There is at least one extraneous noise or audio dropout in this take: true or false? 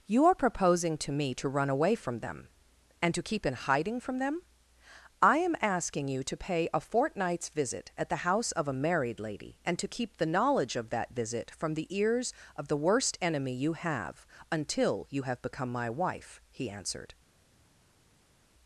false